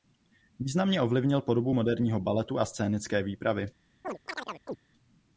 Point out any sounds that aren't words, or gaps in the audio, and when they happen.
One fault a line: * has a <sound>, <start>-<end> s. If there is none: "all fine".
* has a chirp, 4.0-4.8 s